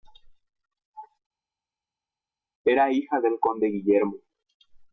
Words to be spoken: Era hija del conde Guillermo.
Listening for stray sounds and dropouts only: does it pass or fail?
pass